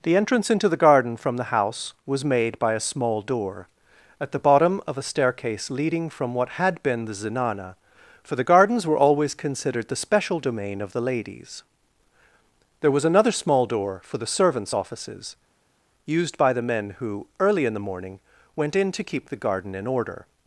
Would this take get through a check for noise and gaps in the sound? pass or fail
pass